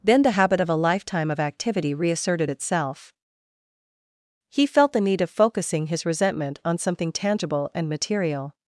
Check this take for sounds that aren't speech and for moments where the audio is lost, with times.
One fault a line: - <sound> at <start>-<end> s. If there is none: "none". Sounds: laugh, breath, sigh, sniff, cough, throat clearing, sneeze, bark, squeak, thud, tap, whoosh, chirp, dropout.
none